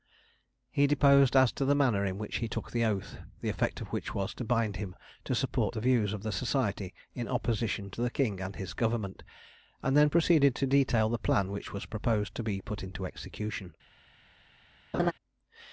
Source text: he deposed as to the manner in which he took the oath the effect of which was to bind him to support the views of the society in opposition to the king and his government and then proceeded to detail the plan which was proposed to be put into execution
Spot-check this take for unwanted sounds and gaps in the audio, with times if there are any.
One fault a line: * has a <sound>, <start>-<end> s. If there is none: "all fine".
* has a laugh, 14.9-15.1 s